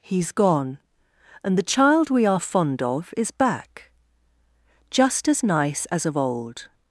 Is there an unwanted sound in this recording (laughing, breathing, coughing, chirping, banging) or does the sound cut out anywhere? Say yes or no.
no